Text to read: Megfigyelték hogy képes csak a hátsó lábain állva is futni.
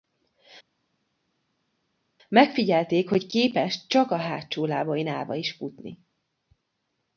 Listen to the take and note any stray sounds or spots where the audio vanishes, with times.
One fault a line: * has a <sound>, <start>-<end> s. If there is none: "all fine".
all fine